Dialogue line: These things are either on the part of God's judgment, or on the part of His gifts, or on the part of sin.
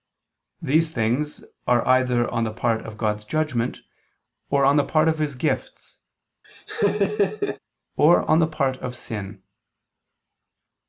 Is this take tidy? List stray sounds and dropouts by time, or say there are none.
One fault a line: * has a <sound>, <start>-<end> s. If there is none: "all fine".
* has a laugh, 6.4-7.6 s